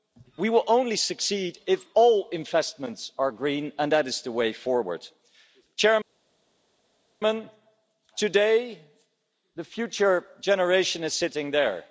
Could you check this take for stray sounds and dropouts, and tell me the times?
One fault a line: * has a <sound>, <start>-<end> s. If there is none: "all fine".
all fine